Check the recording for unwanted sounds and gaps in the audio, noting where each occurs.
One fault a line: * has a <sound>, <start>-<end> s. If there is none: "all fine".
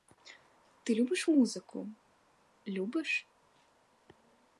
all fine